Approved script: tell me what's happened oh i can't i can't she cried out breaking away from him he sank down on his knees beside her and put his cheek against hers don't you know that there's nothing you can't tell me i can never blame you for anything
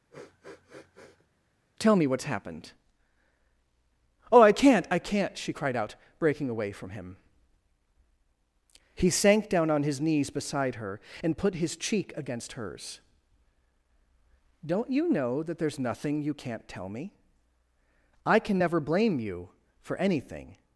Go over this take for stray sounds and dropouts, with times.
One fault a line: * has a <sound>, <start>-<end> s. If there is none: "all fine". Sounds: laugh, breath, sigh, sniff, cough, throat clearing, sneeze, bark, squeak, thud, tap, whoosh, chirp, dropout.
* has a sniff, 0.1-1.3 s